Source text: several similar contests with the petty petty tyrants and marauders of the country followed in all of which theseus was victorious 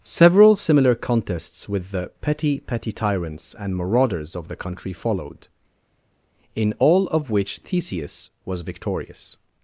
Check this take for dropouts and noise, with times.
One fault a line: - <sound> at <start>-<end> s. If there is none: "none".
none